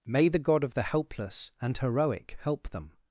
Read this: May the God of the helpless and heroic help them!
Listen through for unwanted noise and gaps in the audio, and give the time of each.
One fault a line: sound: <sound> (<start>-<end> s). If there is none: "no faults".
no faults